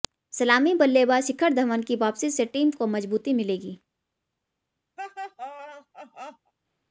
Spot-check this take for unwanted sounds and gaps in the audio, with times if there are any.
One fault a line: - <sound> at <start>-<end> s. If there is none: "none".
- laugh at 5.0-6.5 s